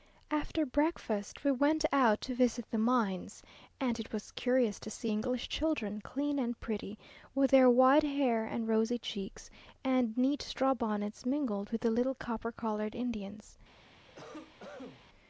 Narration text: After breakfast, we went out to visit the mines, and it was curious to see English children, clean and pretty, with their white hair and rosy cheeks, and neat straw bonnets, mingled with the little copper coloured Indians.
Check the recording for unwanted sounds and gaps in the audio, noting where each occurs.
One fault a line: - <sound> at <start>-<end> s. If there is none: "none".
- cough at 14.1-15.0 s